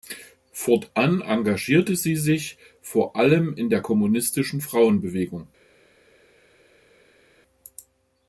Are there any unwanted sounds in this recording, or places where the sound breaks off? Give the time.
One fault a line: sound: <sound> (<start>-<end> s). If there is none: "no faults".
no faults